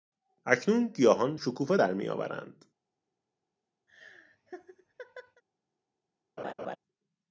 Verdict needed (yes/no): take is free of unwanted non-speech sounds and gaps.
no